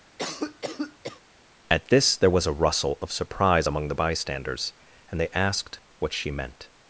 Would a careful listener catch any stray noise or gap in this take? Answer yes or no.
yes